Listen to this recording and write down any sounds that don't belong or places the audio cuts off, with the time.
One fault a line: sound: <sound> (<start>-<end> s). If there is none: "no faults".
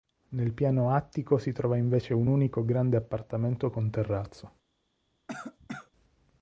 sound: cough (5.3-5.9 s)